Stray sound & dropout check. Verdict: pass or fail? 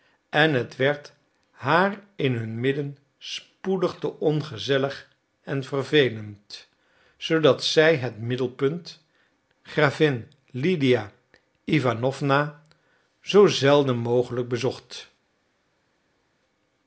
pass